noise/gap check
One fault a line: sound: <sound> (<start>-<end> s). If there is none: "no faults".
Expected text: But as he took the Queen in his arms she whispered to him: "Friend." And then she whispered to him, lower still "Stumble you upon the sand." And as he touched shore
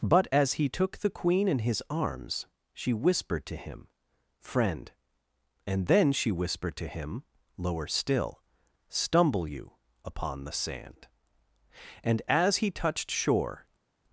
no faults